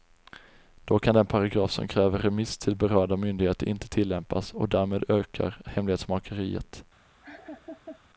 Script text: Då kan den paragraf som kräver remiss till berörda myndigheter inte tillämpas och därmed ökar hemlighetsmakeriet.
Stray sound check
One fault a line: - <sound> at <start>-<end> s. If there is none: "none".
- laugh at 7.2-8.0 s